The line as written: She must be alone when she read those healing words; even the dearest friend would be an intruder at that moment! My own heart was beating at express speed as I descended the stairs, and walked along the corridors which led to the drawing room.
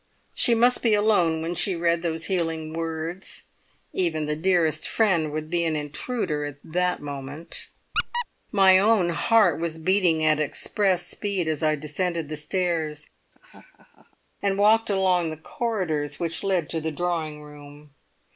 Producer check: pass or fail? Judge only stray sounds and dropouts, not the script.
fail